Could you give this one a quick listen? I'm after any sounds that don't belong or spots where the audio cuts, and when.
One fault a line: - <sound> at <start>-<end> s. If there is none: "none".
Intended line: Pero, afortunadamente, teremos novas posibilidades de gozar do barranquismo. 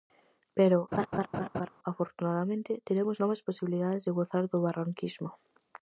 - laugh at 0.9-1.7 s